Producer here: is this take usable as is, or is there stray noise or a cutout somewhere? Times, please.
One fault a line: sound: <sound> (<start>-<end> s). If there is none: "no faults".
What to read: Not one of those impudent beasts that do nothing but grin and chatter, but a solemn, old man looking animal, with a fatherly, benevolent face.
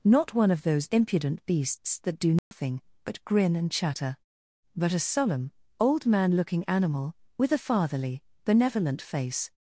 sound: dropout (2.4-2.5 s)